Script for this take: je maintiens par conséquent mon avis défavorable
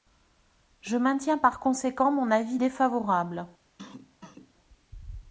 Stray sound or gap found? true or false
true